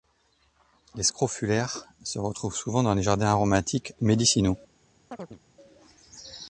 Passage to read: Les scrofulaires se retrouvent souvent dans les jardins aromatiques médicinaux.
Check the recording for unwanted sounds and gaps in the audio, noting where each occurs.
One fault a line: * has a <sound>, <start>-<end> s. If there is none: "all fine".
* has a chirp, 5.1-5.4 s